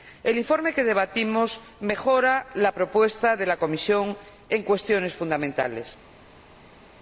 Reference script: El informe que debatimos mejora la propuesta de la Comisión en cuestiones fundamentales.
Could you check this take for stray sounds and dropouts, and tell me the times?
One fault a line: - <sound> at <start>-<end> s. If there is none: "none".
none